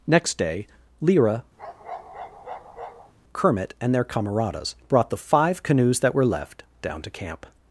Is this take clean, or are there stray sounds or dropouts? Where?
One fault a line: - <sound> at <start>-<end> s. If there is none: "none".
- bark at 1.6-3.1 s